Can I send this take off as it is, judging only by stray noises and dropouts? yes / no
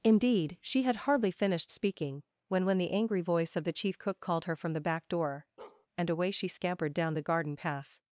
no